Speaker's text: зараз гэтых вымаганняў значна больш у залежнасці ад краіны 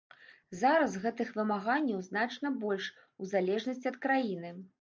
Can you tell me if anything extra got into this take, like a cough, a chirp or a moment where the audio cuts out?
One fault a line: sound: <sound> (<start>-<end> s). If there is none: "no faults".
no faults